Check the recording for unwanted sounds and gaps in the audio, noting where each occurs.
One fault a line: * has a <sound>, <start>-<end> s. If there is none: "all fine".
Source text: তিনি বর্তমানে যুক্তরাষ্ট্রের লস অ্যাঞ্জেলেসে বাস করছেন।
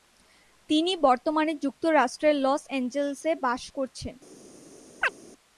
* has a chirp, 5.0-5.1 s